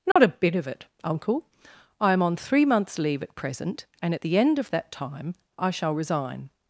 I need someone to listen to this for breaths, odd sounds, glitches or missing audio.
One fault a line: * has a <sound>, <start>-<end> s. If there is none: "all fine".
* has a dropout, 0.1-0.2 s